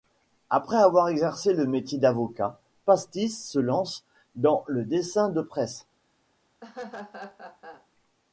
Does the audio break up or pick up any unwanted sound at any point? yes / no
yes